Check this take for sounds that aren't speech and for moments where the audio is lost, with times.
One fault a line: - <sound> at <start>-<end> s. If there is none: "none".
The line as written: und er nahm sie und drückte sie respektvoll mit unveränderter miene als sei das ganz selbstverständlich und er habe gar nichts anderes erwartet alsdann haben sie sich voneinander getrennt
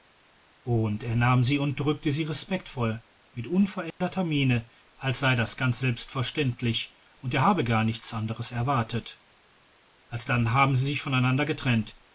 - dropout at 3.9-4.0 s